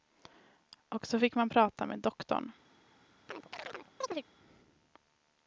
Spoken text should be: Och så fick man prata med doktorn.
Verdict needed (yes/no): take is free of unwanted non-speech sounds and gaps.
no